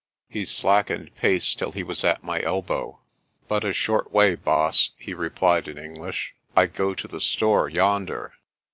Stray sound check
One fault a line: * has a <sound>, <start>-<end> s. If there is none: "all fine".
all fine